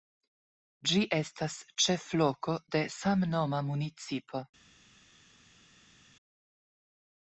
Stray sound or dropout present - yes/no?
no